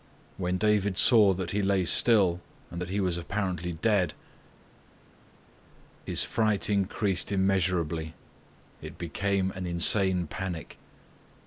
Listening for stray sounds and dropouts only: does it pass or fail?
pass